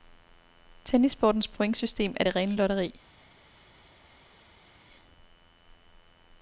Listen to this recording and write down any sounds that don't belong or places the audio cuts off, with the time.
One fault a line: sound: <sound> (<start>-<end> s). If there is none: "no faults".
no faults